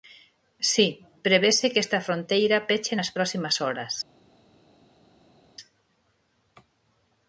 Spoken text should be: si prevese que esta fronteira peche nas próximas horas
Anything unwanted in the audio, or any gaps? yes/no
no